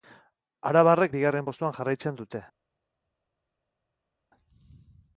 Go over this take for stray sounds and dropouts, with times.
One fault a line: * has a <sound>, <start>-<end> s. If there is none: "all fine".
all fine